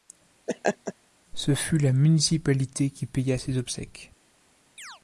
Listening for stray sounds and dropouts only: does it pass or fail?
fail